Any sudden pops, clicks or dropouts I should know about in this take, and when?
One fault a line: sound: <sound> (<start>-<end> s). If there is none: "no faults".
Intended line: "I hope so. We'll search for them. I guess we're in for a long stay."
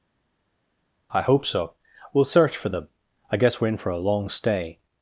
no faults